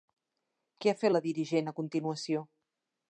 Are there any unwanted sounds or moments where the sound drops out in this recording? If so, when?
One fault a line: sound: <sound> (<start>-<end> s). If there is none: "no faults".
no faults